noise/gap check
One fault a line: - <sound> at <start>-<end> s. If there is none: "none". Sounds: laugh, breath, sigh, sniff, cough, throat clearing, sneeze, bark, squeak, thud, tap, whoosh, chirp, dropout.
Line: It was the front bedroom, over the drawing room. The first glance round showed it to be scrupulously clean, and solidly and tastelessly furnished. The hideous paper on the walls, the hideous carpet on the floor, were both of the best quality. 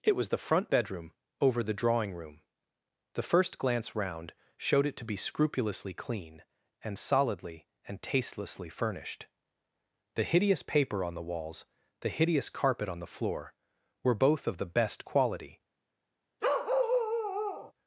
- bark at 16.4-17.7 s